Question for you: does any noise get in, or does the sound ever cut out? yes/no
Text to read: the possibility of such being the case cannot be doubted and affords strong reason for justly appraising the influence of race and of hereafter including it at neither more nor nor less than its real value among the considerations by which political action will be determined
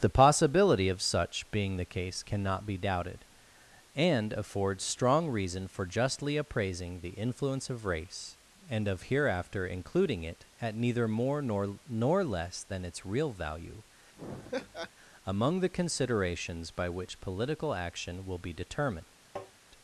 yes